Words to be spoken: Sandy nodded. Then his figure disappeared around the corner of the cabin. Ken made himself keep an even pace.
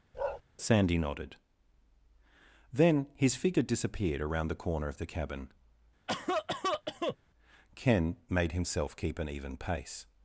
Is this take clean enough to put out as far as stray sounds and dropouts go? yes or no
no